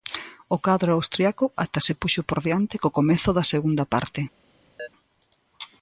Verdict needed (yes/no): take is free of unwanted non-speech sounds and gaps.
no